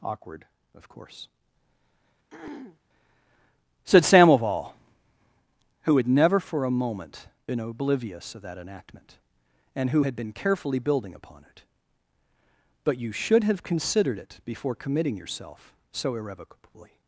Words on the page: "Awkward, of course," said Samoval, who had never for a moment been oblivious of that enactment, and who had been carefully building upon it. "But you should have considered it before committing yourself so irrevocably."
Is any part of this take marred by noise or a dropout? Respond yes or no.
yes